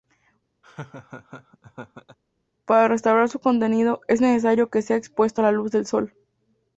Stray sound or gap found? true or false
true